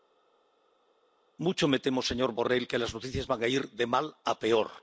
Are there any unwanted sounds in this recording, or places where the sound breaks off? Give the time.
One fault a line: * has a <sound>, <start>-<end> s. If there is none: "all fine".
all fine